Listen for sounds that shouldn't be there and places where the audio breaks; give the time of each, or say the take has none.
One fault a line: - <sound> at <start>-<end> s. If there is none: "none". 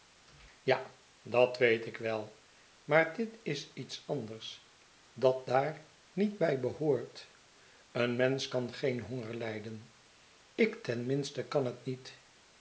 none